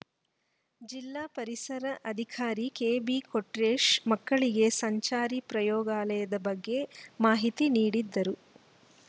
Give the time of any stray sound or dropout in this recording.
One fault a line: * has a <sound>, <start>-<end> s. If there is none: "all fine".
all fine